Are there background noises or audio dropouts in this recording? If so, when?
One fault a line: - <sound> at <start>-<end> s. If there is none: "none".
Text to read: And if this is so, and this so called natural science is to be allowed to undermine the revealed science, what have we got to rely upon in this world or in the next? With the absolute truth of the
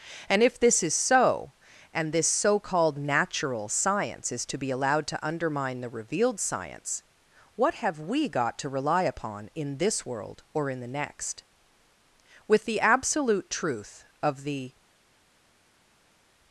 none